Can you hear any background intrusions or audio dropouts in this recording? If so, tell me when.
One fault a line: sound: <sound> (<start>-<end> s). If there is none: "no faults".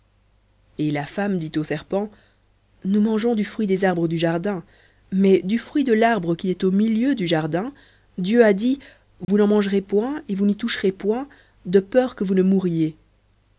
sound: dropout (9.2-9.3 s)